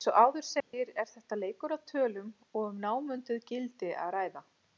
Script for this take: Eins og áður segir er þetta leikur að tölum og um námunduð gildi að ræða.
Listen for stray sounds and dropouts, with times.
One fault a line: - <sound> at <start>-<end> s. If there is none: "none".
- dropout at 0.6-0.7 s